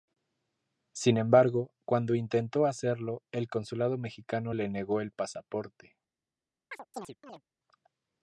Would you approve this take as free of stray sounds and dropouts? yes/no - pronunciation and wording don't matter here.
no